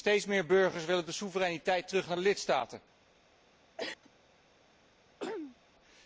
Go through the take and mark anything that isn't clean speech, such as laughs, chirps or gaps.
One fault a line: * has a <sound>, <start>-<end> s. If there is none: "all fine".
* has a cough, 3.8-4.1 s
* has a throat clearing, 5.2-5.6 s